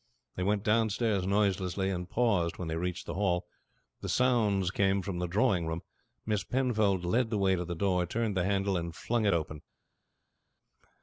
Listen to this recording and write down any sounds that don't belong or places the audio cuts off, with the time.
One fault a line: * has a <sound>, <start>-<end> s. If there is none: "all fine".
all fine